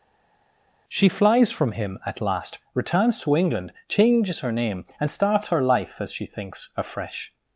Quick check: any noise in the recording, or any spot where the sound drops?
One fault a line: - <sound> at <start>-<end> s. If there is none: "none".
none